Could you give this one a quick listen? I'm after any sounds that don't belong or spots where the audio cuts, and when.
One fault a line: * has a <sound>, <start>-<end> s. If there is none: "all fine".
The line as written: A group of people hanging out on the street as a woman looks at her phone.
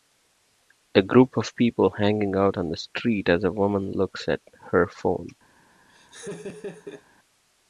* has a laugh, 5.9-7.0 s